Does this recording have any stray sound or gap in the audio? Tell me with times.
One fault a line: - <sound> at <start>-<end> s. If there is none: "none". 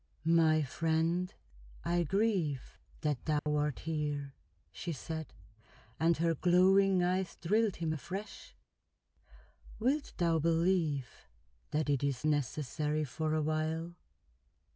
- dropout at 3.4-3.5 s